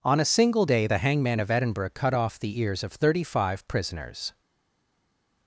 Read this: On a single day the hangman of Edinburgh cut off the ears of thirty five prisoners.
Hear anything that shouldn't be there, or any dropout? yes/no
no